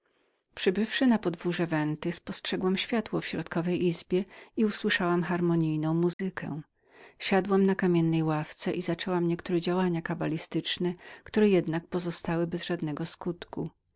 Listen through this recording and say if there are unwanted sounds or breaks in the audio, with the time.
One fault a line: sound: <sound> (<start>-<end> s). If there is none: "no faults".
sound: dropout (6.1-6.2 s)